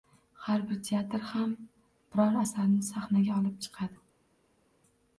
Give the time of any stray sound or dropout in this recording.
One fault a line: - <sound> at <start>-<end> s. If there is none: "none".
none